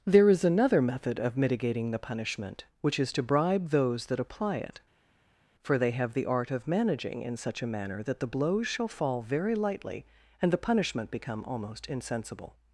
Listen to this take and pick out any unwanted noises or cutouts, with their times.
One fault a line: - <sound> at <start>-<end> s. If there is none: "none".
none